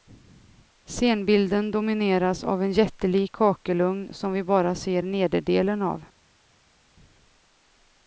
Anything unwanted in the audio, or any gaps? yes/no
no